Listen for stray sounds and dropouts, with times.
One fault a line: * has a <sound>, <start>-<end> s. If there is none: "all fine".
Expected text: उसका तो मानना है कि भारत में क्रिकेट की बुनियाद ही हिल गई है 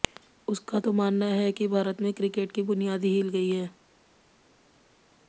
all fine